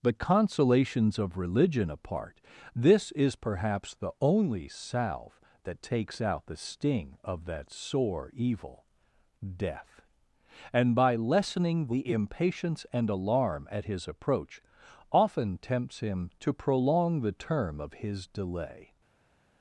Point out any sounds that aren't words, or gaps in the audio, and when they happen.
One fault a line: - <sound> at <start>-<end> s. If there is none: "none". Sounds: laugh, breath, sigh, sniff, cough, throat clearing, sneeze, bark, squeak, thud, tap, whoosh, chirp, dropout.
none